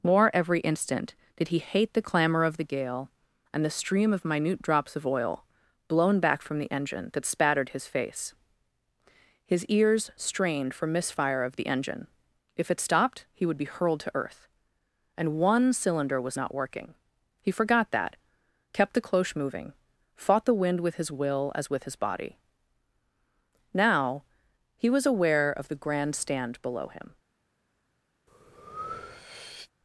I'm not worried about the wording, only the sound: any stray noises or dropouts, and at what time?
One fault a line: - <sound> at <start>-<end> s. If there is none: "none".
- breath at 28.3-29.7 s